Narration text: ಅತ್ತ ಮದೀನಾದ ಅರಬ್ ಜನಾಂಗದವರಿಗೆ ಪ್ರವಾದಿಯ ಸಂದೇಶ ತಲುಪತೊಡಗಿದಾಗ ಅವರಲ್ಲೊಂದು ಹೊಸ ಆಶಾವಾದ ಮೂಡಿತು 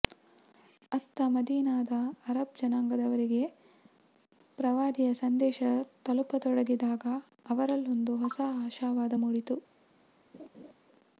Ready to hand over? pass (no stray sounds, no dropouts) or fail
fail